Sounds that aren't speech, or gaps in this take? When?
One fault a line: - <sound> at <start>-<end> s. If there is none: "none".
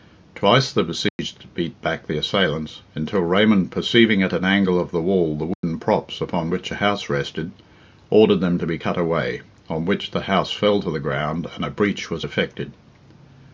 - dropout at 1.1-1.2 s
- dropout at 5.5-5.6 s